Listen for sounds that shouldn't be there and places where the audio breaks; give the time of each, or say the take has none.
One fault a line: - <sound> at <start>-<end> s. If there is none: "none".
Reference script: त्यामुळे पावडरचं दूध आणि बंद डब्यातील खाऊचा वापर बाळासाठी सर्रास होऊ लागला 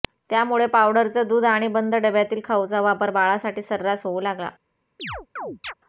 - chirp at 5.0-5.7 s